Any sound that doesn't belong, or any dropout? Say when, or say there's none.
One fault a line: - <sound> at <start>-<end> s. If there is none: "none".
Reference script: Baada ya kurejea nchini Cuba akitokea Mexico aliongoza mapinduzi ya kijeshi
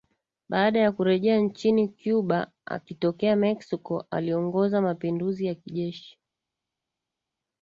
none